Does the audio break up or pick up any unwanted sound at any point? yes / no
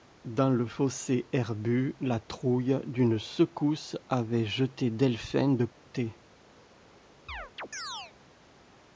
yes